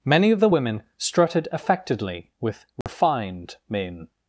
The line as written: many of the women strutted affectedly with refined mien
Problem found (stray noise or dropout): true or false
true